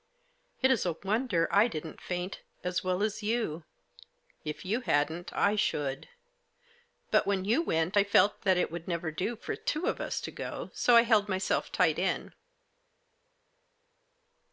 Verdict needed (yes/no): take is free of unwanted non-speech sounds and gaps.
yes